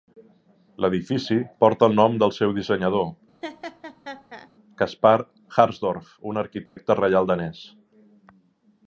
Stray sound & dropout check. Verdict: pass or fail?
fail